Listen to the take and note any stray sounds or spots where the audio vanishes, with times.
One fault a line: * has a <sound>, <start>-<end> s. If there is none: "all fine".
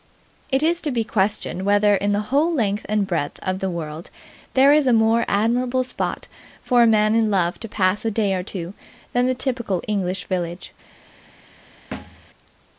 * has a thud, 11.9-12.3 s